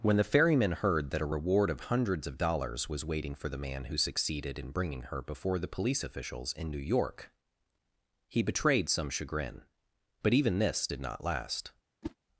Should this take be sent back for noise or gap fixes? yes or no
yes